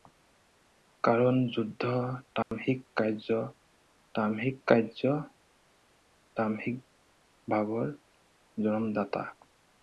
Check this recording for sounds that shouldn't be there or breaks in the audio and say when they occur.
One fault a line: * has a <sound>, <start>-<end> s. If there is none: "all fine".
* has a dropout, 2.4-2.5 s